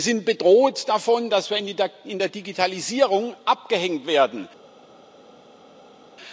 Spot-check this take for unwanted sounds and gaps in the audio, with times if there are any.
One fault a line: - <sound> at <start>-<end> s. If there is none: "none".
none